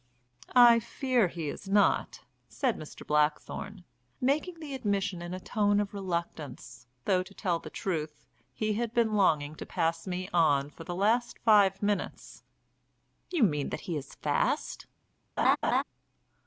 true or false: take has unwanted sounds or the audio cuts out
true